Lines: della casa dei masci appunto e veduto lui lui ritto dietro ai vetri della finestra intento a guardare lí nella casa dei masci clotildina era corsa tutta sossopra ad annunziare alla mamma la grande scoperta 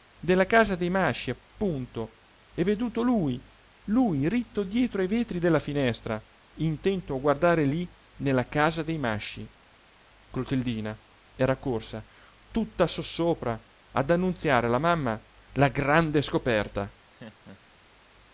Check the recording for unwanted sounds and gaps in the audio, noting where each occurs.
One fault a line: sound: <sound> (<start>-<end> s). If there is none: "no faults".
sound: laugh (17.1-17.8 s)